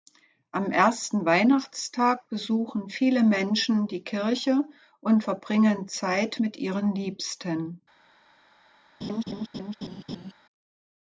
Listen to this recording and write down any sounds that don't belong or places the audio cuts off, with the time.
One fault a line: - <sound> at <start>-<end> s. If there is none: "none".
- laugh at 9.0-10.3 s